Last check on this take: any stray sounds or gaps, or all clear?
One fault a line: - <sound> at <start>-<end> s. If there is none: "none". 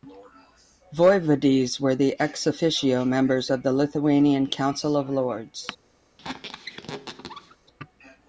- squeak at 6.2-7.6 s